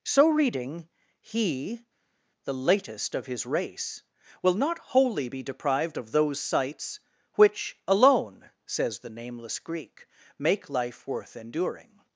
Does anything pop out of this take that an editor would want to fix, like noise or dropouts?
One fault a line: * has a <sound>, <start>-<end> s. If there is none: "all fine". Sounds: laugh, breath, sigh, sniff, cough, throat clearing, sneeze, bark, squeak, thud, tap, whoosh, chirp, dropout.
all fine